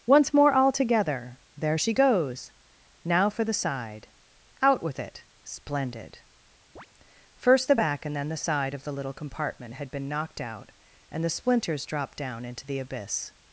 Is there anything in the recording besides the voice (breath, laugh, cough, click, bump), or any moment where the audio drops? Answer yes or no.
yes